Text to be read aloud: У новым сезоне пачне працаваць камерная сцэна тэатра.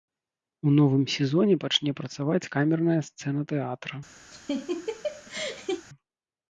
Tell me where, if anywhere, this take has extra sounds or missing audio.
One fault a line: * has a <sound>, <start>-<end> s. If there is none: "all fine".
* has a laugh, 4.3-5.8 s